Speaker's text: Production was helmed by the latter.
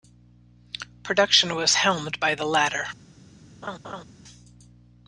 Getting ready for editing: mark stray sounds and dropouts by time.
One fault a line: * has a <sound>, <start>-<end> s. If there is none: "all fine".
* has a laugh, 3.6-4.0 s